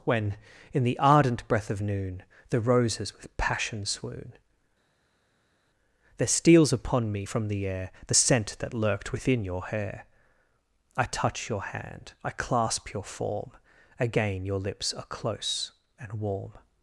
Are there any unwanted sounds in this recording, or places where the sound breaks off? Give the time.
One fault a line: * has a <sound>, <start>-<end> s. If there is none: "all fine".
all fine